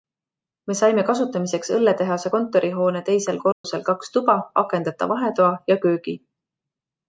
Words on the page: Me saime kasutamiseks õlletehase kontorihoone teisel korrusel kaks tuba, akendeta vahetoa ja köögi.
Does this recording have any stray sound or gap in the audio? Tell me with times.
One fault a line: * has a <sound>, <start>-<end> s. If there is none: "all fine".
* has a dropout, 3.5-3.6 s